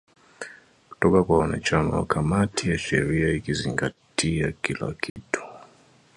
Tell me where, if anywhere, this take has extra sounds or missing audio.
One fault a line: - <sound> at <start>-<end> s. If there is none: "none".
- dropout at 5.1-5.2 s